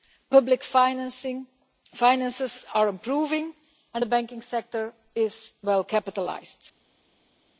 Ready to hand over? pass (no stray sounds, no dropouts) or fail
pass